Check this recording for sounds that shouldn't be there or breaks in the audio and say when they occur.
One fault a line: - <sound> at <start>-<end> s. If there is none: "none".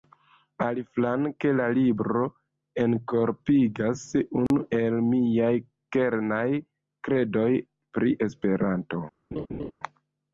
- dropout at 4.5-4.5 s
- laugh at 9.3-9.7 s